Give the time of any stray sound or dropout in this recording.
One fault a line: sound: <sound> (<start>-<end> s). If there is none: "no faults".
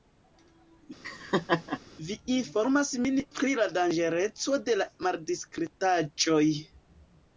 sound: laugh (1.0-1.8 s)